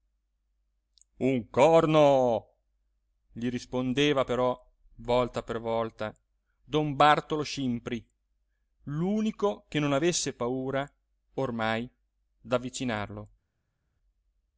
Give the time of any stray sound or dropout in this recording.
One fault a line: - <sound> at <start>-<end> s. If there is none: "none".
none